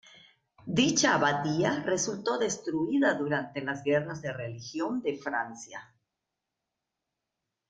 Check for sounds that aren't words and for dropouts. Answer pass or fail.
pass